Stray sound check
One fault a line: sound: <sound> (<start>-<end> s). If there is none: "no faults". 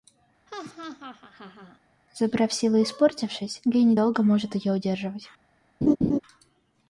sound: laugh (0.5-1.8 s)
sound: laugh (5.8-6.2 s)